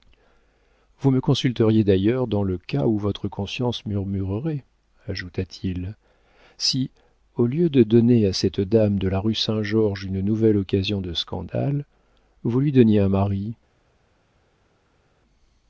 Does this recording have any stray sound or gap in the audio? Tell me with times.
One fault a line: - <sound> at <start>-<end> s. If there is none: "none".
none